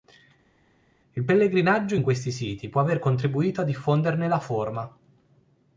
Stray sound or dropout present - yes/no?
no